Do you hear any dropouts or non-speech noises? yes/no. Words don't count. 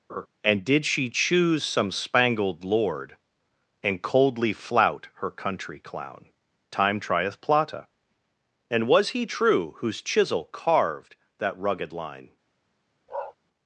yes